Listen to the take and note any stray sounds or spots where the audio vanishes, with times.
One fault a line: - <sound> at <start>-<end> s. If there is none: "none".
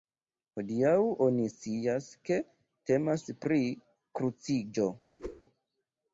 - whoosh at 5.2-5.4 s